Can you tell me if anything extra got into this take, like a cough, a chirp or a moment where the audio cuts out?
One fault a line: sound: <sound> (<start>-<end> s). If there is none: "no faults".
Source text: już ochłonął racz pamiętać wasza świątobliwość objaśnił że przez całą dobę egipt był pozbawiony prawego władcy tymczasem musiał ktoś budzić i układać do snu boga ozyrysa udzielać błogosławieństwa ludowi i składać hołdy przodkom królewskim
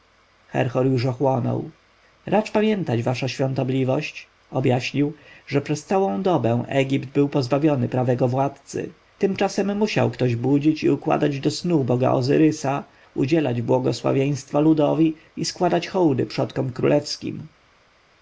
no faults